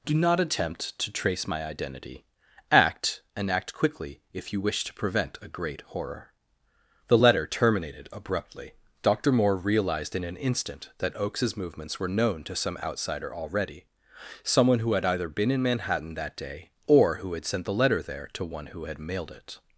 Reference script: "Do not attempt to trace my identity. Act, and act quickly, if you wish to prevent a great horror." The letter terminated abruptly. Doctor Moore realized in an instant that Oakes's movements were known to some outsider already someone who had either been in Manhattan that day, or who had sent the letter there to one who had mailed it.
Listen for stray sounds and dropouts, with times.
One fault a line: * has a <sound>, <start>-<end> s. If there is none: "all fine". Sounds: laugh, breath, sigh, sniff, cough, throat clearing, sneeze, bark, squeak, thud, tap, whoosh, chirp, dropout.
all fine